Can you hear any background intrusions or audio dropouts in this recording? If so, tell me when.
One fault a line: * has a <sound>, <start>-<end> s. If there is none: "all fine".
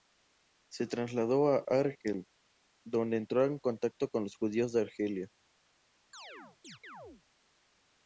* has a chirp, 6.1-7.2 s